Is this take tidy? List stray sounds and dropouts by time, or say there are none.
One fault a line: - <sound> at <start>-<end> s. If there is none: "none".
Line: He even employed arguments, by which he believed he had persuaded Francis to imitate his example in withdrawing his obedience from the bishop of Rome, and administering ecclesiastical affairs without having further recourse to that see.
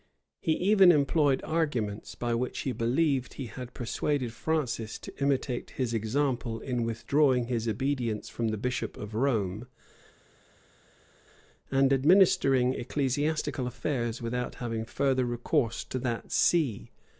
none